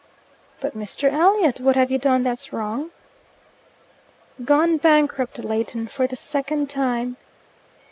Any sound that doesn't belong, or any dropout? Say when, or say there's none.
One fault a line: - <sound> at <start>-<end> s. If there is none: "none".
none